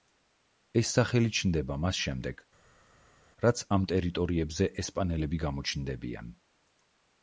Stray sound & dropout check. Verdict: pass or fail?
pass